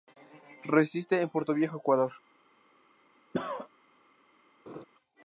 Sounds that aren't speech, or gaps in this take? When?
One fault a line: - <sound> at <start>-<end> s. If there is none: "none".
- cough at 3.3-3.7 s
- laugh at 4.7-4.8 s